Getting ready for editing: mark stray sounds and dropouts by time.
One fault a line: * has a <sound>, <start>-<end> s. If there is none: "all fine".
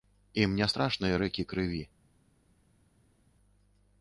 all fine